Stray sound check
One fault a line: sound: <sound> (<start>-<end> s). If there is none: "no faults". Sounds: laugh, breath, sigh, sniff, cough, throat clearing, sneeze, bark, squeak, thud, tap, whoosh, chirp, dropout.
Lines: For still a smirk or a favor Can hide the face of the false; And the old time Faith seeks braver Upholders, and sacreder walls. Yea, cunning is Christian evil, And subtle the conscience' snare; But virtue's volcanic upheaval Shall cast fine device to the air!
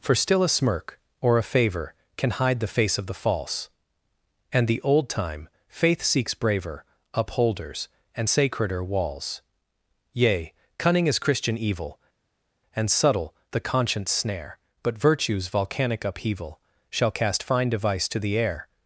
no faults